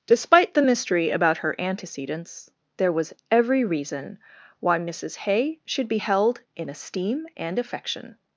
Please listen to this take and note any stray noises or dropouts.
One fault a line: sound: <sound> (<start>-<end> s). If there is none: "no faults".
no faults